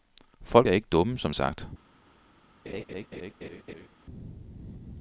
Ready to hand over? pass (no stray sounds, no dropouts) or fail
fail